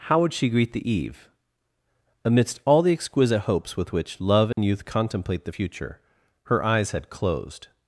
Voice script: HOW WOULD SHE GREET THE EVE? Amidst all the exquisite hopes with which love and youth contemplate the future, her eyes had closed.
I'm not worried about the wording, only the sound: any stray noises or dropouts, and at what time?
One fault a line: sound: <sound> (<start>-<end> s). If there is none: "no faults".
sound: dropout (4.5-4.6 s)